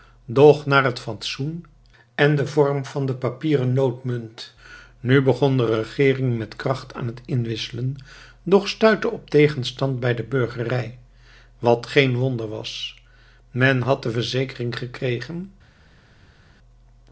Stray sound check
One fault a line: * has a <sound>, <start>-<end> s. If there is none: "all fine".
all fine